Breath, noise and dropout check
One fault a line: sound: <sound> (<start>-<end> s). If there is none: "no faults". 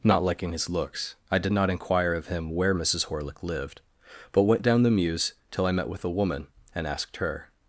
no faults